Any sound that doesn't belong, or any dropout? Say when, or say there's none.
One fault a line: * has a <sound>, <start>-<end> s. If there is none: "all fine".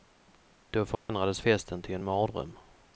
* has a dropout, 1.0-1.1 s